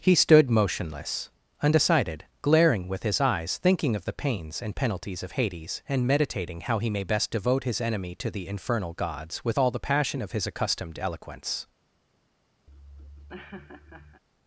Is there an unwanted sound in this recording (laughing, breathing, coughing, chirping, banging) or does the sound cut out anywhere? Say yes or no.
yes